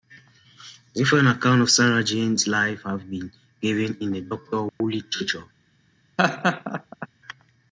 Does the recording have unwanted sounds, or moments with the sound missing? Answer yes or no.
yes